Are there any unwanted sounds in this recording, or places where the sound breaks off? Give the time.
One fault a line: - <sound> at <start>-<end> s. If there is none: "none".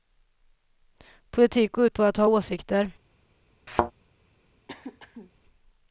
- thud at 3.7-3.9 s
- throat clearing at 4.7-5.3 s